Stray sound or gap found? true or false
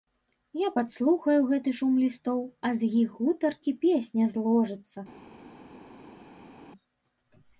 false